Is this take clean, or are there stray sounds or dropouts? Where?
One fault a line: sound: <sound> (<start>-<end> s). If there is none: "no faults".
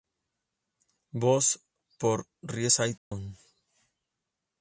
sound: dropout (3.0-3.1 s)